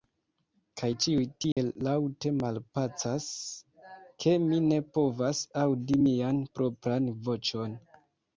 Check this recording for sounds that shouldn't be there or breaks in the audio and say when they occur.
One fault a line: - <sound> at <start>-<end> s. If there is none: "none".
- dropout at 1.5-1.6 s